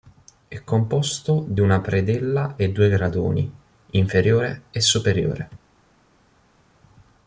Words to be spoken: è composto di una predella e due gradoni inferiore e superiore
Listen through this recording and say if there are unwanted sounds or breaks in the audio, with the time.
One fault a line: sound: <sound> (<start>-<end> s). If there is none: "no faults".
no faults